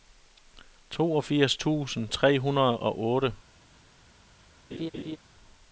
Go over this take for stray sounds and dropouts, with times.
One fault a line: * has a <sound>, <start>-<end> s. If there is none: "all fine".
* has a laugh, 4.7-5.2 s